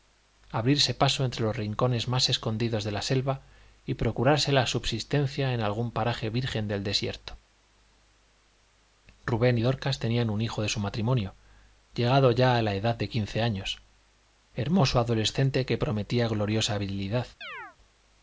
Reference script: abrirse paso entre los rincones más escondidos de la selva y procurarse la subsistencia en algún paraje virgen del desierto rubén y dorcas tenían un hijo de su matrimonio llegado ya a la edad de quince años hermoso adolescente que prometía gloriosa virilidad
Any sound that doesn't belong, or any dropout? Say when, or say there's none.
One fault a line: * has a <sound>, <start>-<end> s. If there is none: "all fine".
* has a chirp, 17.4-17.8 s